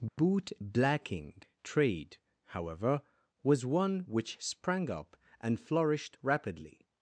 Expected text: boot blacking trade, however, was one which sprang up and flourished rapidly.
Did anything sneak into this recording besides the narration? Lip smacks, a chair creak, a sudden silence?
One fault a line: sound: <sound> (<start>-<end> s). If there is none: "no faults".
sound: dropout (0.1-0.2 s)